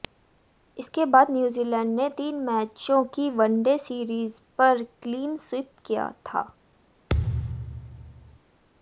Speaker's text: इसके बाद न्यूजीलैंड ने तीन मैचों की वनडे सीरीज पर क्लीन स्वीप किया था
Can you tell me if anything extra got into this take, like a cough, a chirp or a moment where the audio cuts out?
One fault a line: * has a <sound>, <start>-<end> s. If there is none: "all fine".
* has a thud, 7.1-8.4 s